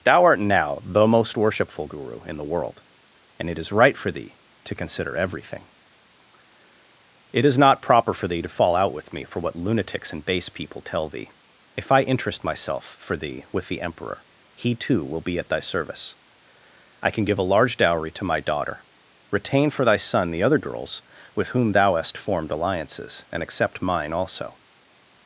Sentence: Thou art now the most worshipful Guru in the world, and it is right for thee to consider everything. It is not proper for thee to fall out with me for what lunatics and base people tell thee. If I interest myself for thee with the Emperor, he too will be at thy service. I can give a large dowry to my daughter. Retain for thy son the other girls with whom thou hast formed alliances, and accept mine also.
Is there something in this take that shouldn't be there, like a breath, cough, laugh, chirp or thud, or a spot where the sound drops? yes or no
no